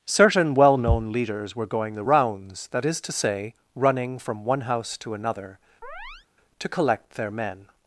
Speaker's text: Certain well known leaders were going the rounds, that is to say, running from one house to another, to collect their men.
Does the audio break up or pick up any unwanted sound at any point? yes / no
yes